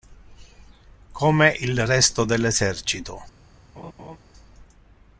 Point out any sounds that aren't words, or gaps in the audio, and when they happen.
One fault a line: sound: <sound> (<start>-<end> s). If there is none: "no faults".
sound: laugh (3.8-4.2 s)